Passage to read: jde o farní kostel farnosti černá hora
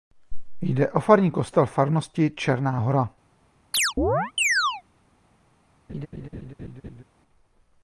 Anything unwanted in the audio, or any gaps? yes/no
yes